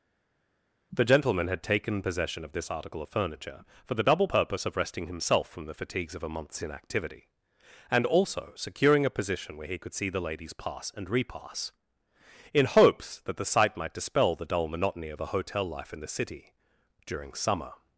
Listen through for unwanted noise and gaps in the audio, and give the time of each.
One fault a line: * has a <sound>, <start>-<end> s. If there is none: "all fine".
all fine